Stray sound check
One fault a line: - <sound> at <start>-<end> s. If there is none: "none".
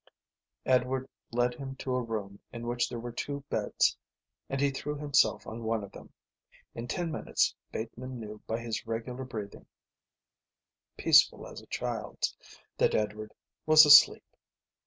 none